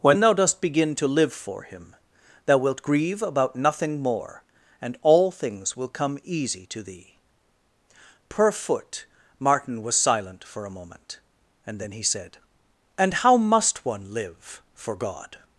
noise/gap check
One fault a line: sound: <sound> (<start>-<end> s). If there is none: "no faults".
no faults